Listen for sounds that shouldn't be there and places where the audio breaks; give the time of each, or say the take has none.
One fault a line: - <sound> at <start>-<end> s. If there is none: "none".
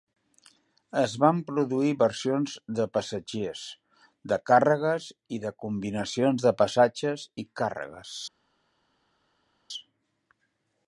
none